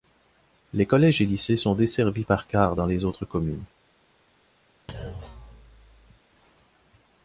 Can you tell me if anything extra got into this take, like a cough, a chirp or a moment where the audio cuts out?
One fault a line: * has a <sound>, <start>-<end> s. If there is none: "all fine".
* has a thud, 4.9-6.2 s